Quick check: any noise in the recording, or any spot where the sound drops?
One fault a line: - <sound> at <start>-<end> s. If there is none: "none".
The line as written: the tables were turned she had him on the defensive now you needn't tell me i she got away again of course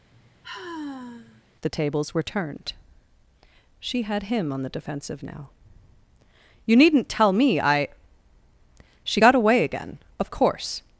- sigh at 0.1-1.4 s